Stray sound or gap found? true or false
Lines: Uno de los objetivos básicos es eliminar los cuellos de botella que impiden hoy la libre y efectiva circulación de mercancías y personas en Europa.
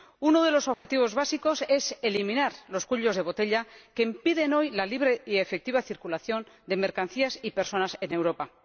true